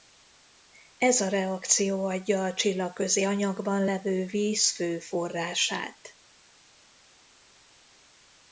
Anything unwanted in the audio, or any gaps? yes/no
no